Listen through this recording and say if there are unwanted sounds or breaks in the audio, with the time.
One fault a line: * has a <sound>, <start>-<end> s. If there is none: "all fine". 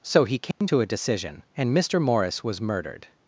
* has a dropout, 0.5-0.6 s